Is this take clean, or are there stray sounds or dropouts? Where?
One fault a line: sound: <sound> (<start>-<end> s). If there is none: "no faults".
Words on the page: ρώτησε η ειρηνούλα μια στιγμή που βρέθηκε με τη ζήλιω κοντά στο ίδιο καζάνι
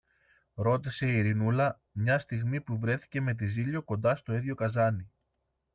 no faults